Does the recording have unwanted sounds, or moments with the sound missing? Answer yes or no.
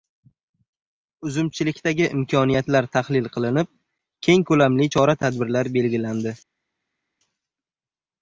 no